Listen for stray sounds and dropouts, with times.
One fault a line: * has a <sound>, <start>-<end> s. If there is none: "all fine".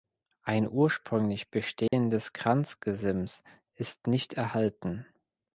* has a dropout, 1.9-1.9 s